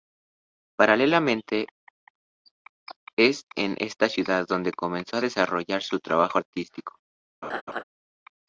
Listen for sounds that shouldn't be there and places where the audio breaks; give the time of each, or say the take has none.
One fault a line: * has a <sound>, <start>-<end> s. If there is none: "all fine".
* has a laugh, 7.4-7.8 s